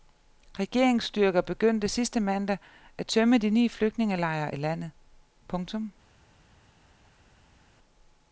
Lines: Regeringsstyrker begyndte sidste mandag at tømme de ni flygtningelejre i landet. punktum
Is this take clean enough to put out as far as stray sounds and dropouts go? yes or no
yes